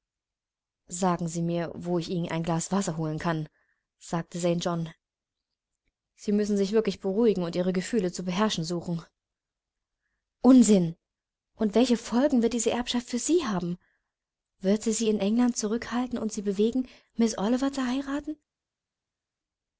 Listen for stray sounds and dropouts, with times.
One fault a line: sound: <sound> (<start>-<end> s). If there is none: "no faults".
no faults